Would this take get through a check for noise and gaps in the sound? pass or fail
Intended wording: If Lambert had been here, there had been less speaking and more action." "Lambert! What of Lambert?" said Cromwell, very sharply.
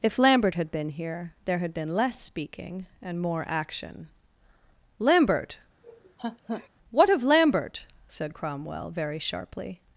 fail